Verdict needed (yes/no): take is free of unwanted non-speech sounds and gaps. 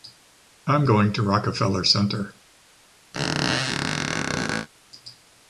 no